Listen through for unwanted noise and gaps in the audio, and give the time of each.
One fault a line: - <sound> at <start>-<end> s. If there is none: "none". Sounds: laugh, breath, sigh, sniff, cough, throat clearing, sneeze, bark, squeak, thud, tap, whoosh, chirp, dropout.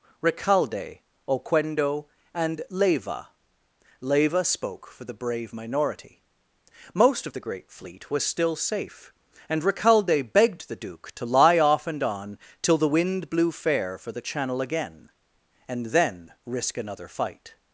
none